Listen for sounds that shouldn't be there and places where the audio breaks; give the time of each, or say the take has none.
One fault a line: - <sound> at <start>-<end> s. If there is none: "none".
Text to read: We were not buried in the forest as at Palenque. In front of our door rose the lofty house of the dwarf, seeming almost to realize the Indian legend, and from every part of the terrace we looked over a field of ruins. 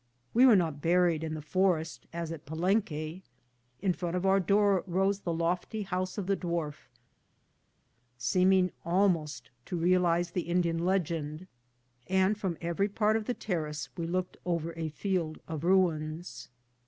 none